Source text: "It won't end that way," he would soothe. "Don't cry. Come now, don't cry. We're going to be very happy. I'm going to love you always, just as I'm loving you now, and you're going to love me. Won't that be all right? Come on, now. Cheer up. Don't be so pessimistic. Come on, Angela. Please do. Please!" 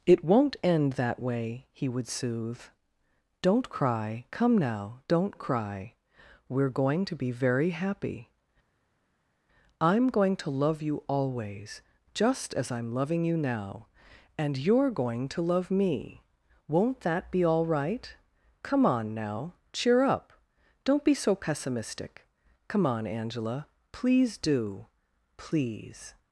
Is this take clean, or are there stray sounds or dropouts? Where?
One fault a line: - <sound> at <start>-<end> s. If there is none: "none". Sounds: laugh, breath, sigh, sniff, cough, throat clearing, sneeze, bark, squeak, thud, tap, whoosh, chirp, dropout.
none